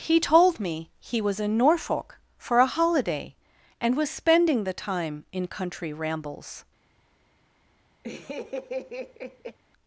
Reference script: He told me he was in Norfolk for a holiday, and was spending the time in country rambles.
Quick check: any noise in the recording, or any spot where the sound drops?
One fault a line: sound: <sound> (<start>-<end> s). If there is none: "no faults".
sound: laugh (8.0-9.6 s)